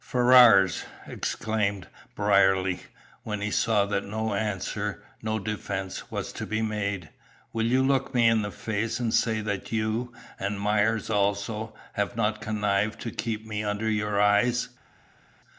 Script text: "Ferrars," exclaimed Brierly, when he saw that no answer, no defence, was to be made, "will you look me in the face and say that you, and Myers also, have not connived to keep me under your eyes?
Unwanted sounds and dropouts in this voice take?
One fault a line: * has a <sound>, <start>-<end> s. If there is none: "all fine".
all fine